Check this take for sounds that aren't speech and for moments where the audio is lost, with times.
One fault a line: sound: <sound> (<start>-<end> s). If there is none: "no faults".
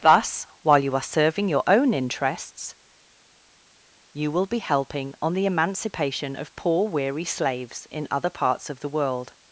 no faults